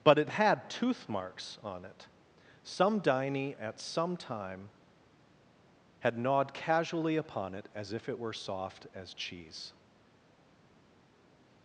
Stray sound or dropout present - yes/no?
no